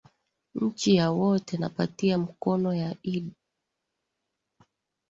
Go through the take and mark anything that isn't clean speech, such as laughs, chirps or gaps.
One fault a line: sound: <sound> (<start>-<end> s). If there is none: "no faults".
no faults